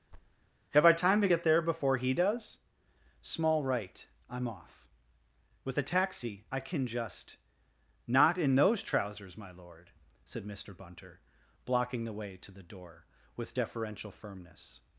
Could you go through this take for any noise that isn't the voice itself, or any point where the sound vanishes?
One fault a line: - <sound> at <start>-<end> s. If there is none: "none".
- thud at 0.1-0.4 s